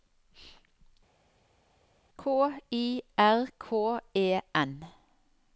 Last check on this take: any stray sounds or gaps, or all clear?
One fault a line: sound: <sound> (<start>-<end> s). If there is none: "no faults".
no faults